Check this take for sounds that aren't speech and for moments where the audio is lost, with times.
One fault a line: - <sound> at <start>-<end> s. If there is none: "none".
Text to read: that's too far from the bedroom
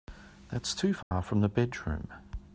- dropout at 1.0-1.1 s